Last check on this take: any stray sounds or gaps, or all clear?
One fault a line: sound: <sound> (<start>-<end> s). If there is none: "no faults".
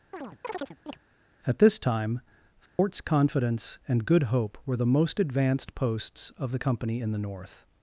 sound: chirp (0.1-1.0 s)
sound: dropout (2.7-2.8 s)